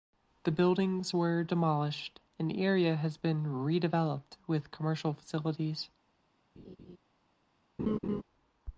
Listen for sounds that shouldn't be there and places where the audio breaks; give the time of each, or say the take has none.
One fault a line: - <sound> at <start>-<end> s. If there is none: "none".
- laugh at 6.6-7.0 s
- laugh at 7.8-8.2 s